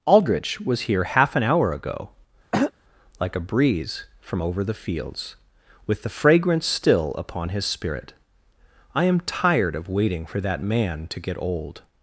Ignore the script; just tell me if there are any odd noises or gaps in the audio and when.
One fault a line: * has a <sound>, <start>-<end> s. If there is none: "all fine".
* has a throat clearing, 2.5-2.7 s